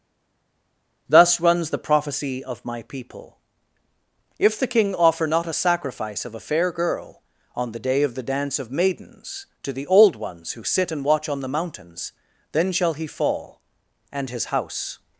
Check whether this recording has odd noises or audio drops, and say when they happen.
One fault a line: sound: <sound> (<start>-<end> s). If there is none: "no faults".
no faults